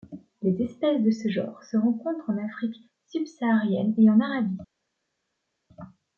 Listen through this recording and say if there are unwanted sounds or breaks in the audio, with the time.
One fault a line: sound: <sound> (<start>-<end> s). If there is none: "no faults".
no faults